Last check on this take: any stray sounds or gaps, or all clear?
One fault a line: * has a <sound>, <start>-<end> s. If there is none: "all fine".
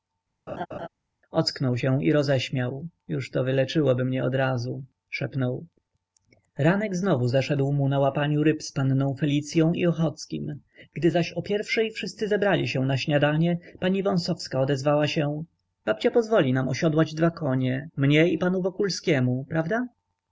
* has a laugh, 0.5-0.9 s